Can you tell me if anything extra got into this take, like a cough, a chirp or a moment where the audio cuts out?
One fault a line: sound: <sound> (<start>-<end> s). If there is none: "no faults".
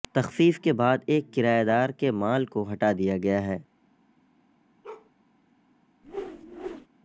sound: bark (4.8-5.1 s)
sound: whoosh (6.0-6.9 s)